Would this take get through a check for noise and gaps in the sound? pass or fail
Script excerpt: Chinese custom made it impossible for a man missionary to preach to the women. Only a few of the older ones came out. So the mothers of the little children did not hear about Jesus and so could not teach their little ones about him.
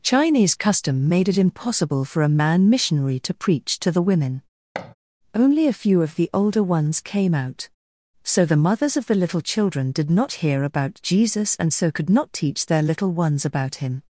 fail